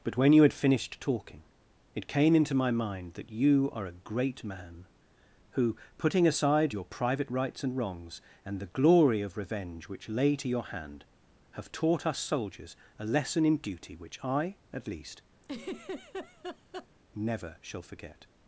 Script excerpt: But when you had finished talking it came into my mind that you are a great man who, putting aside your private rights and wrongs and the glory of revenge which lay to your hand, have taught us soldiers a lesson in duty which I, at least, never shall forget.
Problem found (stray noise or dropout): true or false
true